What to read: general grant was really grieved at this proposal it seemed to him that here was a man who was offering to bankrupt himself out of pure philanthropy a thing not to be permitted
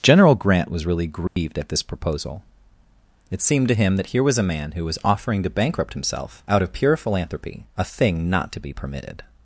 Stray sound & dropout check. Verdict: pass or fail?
fail